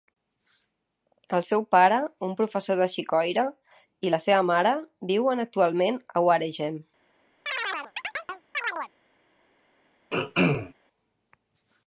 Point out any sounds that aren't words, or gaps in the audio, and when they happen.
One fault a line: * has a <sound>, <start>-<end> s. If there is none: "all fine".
* has a chirp, 7.5-8.9 s
* has a throat clearing, 10.1-10.7 s